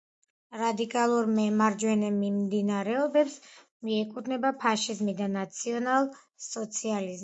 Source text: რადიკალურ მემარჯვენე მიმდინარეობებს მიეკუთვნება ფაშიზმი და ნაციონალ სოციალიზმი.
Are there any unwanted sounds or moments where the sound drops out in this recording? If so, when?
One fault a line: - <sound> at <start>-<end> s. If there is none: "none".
none